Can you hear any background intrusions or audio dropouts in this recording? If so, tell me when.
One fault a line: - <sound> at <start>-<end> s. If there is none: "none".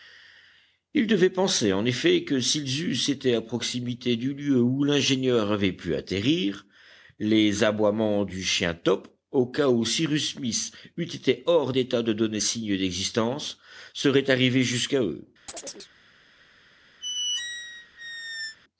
- chirp at 15.5-15.9 s
- squeak at 17.0-18.6 s